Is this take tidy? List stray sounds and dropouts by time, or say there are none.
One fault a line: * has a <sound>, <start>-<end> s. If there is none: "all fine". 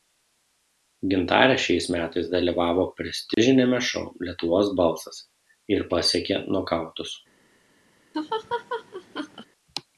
* has a dropout, 3.3-3.4 s
* has a laugh, 8.1-9.5 s